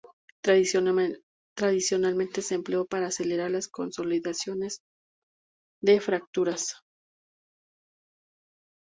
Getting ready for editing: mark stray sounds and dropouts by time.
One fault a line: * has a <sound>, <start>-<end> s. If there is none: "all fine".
all fine